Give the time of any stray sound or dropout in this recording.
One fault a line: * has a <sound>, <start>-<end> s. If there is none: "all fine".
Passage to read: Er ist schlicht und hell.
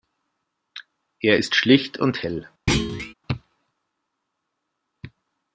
* has a thud, 2.7-3.1 s